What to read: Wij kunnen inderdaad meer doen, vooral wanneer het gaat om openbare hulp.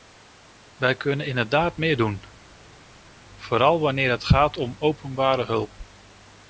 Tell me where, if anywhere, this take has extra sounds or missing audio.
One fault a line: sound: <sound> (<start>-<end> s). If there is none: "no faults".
no faults